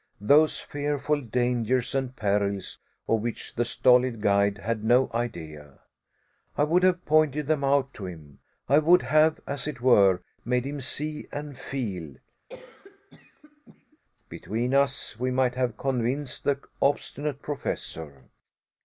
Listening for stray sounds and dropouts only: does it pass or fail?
fail